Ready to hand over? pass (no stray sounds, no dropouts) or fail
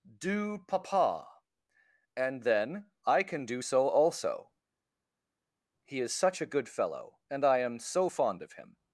pass